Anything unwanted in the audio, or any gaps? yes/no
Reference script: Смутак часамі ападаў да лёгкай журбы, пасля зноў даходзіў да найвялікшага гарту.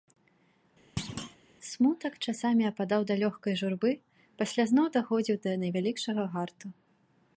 yes